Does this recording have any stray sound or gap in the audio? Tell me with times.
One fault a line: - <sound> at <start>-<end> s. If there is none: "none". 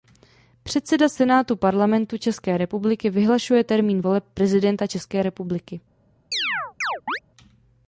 - chirp at 6.3-7.2 s